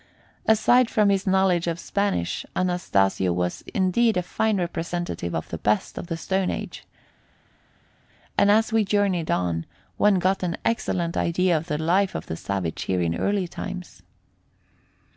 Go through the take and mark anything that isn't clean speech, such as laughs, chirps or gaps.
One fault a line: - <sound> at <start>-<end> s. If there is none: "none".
none